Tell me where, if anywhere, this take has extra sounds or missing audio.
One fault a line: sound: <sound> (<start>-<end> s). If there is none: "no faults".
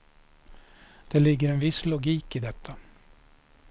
no faults